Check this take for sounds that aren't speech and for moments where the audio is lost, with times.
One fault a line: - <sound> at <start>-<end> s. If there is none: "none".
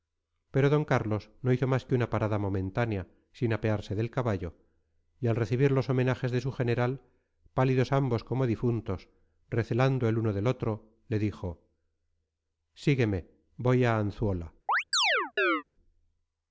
- chirp at 14.7-15.6 s